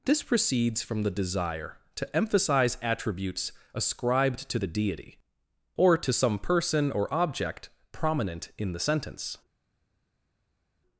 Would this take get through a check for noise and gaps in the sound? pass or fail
pass